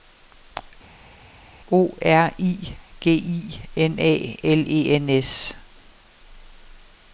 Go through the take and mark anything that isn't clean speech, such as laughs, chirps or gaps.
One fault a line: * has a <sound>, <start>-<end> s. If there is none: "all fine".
all fine